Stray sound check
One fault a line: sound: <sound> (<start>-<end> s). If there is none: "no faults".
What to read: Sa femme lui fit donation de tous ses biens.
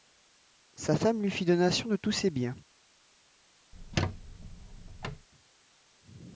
sound: squeak (3.7-5.3 s)